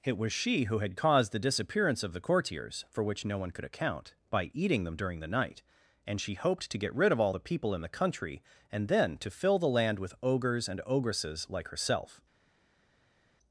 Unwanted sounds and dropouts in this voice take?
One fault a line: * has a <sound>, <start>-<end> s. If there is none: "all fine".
all fine